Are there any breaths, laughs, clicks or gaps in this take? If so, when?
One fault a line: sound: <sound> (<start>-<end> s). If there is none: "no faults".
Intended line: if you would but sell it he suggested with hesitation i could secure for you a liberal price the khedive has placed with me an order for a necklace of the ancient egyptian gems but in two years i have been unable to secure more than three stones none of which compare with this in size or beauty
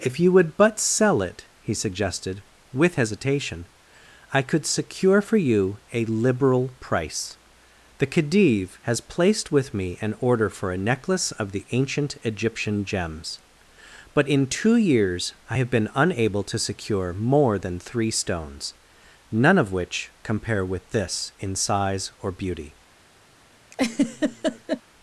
sound: laugh (23.7-24.8 s)